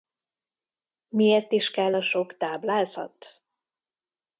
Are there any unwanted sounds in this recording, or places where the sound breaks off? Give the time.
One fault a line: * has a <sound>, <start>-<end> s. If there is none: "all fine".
all fine